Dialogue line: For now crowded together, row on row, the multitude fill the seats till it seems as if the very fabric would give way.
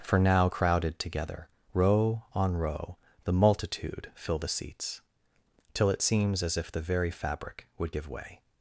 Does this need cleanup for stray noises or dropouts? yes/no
no